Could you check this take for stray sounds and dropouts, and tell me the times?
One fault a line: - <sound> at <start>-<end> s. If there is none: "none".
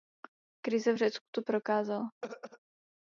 - throat clearing at 2.2-2.6 s